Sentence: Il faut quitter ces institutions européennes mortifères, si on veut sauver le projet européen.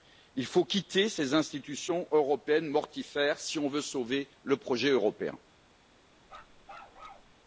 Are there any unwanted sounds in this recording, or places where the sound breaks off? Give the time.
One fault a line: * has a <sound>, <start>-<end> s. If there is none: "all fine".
* has a bark, 6.2-7.3 s